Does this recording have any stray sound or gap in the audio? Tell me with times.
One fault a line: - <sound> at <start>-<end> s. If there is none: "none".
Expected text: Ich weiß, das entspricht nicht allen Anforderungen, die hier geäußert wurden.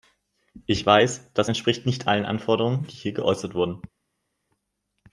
none